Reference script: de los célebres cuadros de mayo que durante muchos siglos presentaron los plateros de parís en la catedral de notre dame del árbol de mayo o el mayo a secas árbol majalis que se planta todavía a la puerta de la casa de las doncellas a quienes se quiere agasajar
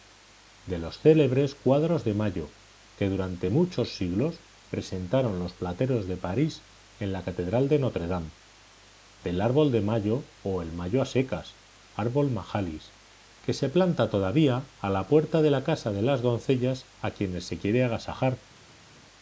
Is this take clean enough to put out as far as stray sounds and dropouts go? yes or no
yes